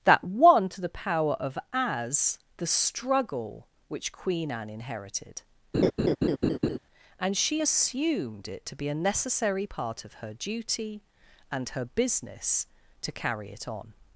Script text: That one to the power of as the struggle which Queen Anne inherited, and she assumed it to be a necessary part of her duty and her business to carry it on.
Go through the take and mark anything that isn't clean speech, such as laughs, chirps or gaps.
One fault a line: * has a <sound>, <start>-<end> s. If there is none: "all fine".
* has a laugh, 5.7-6.8 s